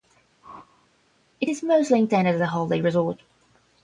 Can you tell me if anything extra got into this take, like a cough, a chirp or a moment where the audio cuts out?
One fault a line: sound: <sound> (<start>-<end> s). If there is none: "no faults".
sound: whoosh (0.4-0.9 s)